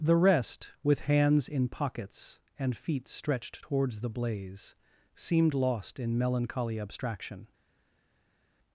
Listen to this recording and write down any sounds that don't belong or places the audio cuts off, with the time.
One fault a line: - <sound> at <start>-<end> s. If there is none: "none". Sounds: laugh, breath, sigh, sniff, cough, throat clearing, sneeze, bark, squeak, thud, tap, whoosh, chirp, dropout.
none